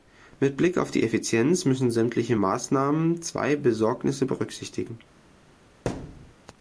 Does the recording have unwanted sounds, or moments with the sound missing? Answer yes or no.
yes